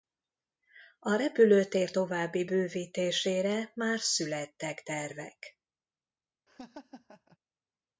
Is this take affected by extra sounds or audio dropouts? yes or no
yes